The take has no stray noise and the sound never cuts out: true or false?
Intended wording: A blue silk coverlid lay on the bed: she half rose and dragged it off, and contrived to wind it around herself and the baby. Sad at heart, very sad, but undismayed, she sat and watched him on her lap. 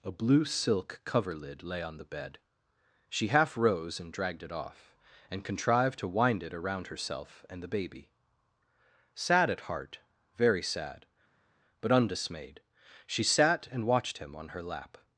true